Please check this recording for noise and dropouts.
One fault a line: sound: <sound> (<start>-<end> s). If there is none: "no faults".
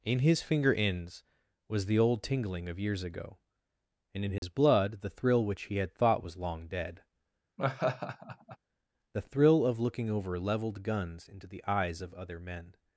sound: dropout (4.4-4.4 s)
sound: laugh (7.6-8.6 s)